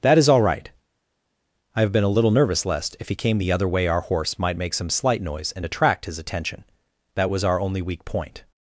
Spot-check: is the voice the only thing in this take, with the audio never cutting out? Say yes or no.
yes